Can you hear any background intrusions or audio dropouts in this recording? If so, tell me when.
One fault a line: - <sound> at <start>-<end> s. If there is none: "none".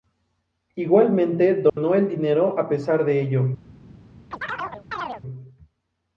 - dropout at 1.7-1.8 s
- chirp at 4.3-5.2 s